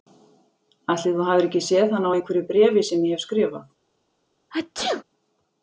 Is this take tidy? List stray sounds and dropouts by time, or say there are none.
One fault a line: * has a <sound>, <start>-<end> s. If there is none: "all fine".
* has a sneeze, 4.5-5.0 s